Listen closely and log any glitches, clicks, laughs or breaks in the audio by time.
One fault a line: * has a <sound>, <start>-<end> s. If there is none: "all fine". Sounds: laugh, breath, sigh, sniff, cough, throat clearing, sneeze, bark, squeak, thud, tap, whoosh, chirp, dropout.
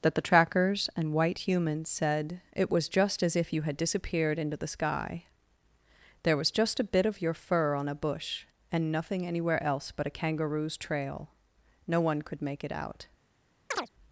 * has a chirp, 13.7-13.9 s